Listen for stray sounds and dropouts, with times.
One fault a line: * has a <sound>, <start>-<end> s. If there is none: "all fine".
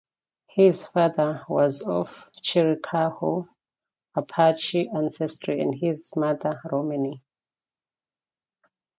all fine